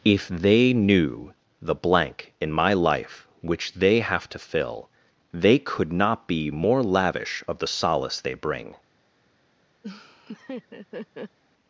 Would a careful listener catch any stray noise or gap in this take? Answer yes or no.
yes